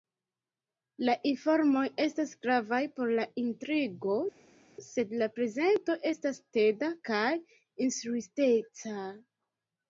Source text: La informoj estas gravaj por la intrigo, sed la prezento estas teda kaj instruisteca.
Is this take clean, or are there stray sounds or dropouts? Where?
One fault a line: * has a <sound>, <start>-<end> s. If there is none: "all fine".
all fine